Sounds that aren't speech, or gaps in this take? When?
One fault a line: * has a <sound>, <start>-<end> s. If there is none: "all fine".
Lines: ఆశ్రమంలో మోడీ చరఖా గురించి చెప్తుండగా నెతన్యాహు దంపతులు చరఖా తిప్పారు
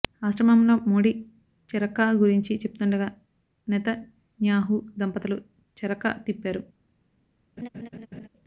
* has a laugh, 7.6-8.3 s